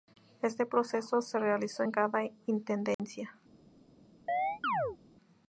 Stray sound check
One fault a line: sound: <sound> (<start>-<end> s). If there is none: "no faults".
sound: dropout (2.9-3.0 s)
sound: chirp (4.3-5.0 s)